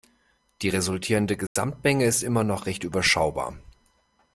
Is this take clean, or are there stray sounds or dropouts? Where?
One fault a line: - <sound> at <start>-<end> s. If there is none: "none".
- dropout at 1.5-1.6 s